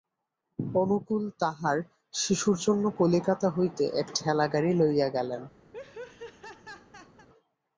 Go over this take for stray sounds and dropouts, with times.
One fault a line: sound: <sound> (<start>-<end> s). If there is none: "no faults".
sound: laugh (5.7-7.3 s)